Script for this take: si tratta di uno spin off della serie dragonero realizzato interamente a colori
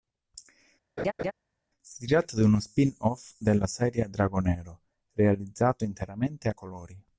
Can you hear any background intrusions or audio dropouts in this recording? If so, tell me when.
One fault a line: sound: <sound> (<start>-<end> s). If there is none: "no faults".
sound: laugh (1.0-1.3 s)